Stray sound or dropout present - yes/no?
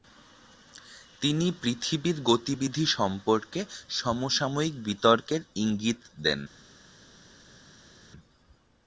no